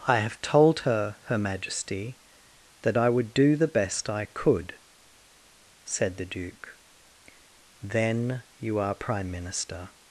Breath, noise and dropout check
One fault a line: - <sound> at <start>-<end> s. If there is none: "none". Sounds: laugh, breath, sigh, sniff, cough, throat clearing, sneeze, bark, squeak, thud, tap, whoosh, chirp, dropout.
none